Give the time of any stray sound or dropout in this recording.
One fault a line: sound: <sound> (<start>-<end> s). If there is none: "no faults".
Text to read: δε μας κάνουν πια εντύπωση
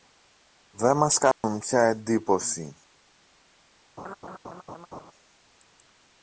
sound: dropout (1.3-1.4 s)
sound: laugh (4.0-5.1 s)